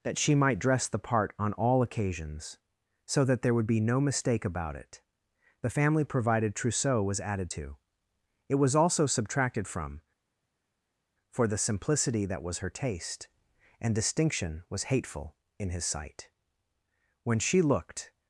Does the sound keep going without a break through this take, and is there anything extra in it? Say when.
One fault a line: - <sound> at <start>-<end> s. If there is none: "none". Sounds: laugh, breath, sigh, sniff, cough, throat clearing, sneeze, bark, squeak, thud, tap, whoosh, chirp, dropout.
none